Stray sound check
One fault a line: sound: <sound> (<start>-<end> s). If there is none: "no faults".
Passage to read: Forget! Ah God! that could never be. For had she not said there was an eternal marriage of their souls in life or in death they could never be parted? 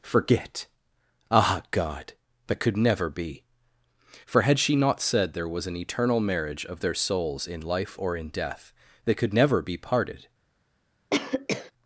sound: cough (11.1-11.7 s)